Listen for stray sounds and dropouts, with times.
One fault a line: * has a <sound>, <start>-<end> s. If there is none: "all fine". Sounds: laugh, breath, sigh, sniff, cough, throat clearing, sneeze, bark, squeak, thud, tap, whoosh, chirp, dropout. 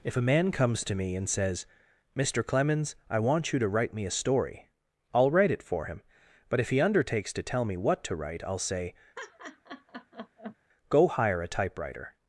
* has a laugh, 9.2-10.6 s